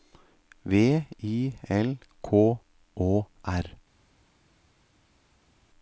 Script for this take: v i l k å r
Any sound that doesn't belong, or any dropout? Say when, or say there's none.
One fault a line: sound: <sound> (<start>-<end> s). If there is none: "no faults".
no faults